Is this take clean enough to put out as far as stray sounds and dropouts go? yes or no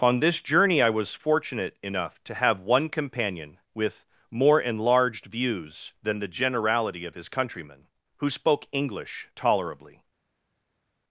yes